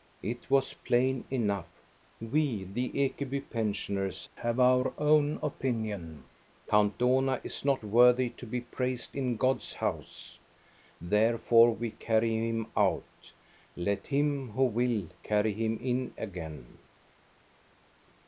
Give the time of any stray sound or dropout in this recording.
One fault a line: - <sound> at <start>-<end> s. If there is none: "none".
none